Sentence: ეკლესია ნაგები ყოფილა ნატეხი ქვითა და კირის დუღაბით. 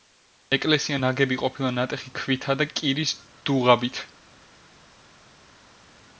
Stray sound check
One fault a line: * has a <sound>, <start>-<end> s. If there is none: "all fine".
all fine